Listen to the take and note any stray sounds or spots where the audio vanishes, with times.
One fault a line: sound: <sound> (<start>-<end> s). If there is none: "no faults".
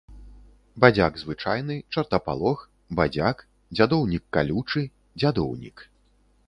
no faults